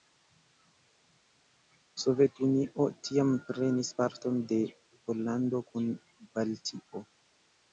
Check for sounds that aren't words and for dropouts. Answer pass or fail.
pass